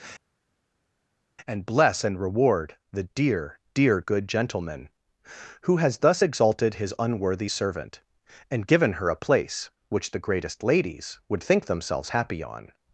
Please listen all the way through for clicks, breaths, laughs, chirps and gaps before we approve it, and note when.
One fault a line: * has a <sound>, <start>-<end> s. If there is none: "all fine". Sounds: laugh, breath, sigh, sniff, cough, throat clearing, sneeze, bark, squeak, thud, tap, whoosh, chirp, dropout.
all fine